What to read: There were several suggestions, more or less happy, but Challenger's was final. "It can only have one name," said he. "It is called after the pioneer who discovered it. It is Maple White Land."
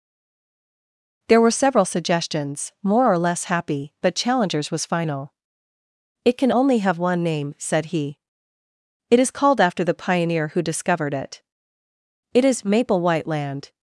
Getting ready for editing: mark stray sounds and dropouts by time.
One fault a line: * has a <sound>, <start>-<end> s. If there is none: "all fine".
all fine